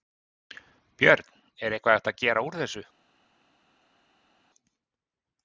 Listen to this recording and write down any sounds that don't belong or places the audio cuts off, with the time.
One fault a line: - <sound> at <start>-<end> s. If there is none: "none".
none